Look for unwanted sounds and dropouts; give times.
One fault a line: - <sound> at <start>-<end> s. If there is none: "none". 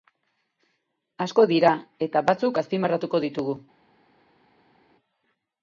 none